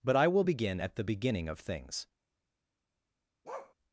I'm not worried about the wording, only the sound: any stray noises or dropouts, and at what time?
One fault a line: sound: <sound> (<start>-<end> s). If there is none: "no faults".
sound: bark (3.4-3.7 s)